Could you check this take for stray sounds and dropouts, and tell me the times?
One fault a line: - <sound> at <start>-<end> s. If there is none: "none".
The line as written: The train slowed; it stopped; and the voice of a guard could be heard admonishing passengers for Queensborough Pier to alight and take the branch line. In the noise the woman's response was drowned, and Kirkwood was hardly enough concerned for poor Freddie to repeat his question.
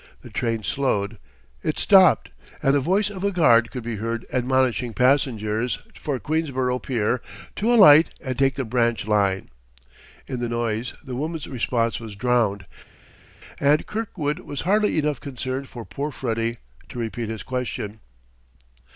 none